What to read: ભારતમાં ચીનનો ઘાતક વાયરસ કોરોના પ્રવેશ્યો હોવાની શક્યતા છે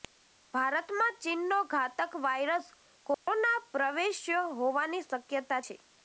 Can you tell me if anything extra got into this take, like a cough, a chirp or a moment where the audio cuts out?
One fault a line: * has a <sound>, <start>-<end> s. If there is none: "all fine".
* has a dropout, 3.1-3.3 s